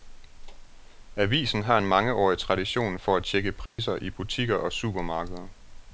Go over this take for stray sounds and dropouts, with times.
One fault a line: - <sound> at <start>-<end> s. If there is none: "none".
- dropout at 3.7-3.8 s